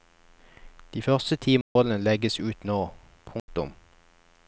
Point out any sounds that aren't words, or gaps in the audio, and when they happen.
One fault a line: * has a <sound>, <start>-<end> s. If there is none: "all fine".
* has a dropout, 1.6-1.8 s
* has a dropout, 3.4-3.5 s